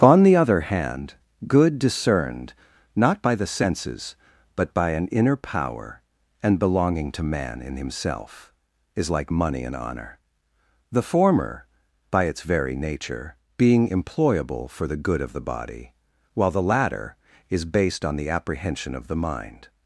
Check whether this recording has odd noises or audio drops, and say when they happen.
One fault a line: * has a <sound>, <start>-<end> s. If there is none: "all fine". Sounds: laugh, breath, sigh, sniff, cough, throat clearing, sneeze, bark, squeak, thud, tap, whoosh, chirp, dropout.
all fine